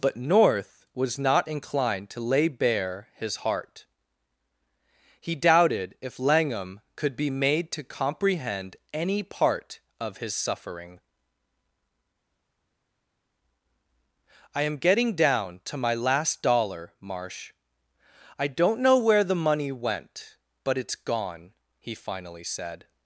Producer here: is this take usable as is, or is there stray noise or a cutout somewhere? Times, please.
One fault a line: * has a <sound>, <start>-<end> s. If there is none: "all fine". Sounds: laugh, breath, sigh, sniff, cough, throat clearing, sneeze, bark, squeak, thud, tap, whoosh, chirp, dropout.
all fine